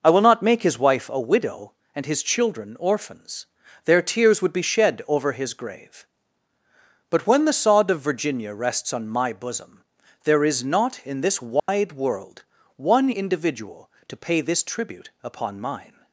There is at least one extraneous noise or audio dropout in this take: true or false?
true